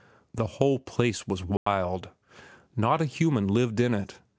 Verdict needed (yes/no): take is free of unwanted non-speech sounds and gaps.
no